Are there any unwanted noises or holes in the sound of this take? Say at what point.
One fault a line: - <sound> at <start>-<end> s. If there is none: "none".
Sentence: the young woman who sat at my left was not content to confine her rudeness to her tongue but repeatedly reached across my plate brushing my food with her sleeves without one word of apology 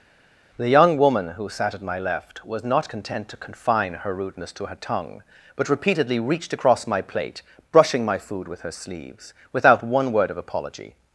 none